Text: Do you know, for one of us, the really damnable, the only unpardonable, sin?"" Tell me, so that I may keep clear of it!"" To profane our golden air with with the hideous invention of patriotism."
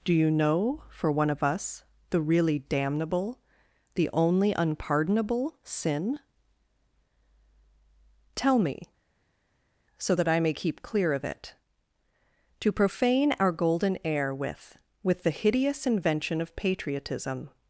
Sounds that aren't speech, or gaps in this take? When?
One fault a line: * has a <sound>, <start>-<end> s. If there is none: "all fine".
all fine